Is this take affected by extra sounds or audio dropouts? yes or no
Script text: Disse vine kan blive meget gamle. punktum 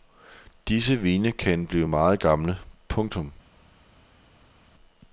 no